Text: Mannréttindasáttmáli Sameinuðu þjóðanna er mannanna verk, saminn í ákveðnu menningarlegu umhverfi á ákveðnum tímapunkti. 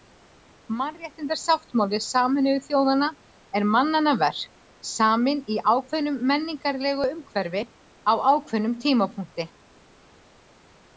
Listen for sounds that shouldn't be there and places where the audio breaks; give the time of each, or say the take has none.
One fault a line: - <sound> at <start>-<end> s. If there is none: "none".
none